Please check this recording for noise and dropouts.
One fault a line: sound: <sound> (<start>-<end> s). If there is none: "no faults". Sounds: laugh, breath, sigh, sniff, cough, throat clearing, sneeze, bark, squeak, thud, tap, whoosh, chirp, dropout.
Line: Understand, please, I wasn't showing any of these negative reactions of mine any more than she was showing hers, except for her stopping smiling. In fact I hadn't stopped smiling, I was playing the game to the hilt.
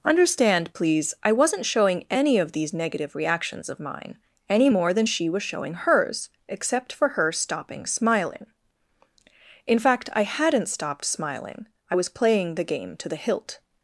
no faults